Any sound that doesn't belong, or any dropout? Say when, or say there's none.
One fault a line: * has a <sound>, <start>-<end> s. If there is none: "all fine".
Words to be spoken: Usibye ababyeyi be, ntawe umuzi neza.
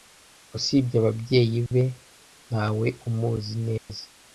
* has a dropout, 3.8-3.9 s